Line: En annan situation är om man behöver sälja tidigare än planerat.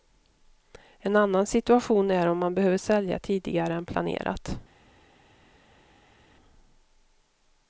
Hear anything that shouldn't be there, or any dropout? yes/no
no